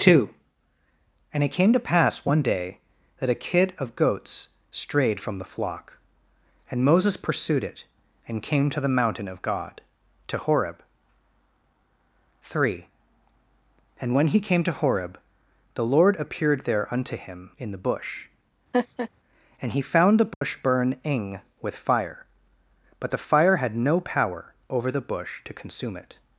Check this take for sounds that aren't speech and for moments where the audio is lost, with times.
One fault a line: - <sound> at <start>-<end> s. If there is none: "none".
- laugh at 18.7-19.1 s
- dropout at 20.3-20.4 s